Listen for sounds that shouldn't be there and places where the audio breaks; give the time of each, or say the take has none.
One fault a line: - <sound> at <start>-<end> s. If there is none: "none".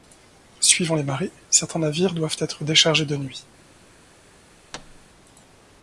- thud at 4.7-5.1 s